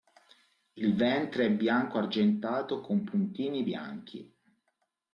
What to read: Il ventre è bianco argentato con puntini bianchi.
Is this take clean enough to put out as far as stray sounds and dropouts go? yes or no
yes